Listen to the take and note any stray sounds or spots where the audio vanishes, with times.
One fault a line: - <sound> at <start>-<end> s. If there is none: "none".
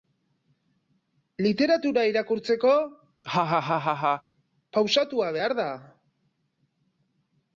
- laugh at 3.2-4.2 s